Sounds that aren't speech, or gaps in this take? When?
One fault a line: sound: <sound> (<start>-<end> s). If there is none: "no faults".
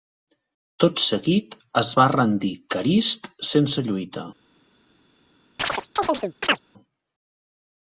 sound: chirp (5.6-6.6 s)